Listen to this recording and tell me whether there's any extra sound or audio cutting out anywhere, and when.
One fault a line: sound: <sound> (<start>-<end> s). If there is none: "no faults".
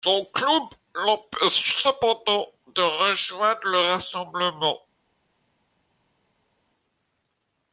no faults